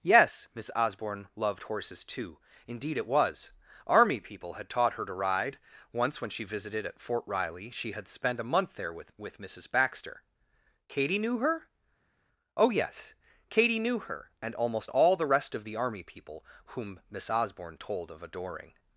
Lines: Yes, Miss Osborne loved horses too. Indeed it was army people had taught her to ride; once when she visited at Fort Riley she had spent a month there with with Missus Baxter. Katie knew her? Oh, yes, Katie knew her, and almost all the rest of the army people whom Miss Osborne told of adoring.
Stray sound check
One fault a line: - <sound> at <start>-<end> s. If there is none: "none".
none